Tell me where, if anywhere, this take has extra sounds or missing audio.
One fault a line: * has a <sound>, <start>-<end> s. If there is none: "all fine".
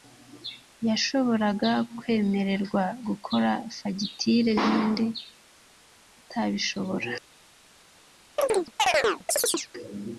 * has a chirp, 8.4-9.7 s